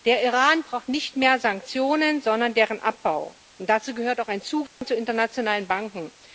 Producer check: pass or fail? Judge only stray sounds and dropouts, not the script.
fail